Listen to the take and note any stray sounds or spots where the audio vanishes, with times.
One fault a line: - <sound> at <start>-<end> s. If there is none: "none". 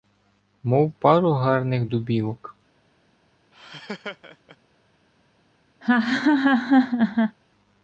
- laugh at 3.5-4.6 s
- laugh at 5.8-7.4 s